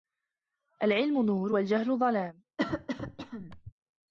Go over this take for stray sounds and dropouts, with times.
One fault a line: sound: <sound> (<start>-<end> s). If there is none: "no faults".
sound: cough (2.6-3.7 s)